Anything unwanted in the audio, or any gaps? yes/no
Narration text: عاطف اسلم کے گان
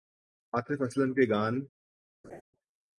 yes